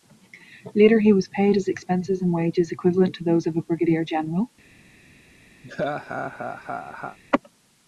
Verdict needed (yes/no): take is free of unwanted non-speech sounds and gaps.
no